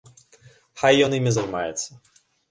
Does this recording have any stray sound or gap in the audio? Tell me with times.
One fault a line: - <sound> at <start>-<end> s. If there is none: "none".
none